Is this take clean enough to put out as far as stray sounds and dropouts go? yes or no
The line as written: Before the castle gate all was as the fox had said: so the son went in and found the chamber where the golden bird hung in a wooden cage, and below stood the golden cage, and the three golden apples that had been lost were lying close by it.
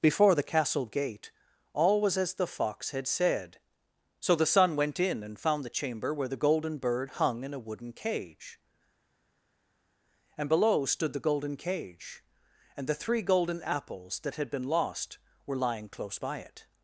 yes